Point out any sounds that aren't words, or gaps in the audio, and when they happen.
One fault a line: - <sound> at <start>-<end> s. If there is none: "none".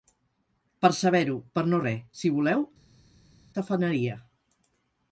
none